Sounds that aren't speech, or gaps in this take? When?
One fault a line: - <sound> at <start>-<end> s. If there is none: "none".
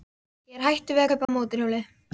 - dropout at 1.2-1.3 s